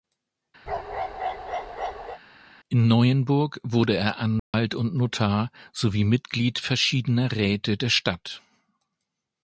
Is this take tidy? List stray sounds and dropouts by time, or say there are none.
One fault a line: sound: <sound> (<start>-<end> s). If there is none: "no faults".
sound: bark (0.7-2.2 s)
sound: dropout (4.4-4.5 s)